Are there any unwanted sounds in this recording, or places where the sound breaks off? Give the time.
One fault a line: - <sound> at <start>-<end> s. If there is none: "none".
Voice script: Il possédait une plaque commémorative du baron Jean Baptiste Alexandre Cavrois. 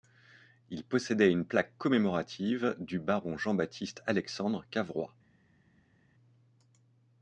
none